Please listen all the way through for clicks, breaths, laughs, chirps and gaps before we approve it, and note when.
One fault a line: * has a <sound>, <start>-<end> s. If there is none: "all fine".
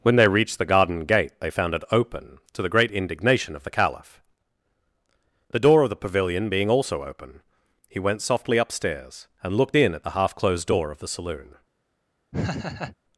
* has a laugh, 12.3-13.0 s